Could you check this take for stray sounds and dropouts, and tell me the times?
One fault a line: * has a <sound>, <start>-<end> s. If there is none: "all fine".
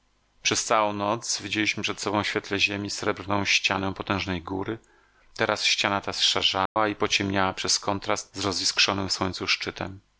* has a dropout, 6.7-6.8 s